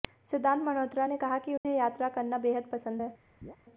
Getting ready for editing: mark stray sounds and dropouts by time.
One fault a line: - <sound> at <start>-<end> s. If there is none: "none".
- dropout at 1.6-1.6 s
- chirp at 3.4-3.6 s